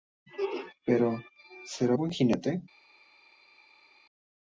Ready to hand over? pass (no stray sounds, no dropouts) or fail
pass